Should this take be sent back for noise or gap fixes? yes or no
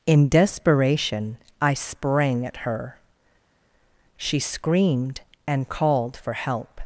no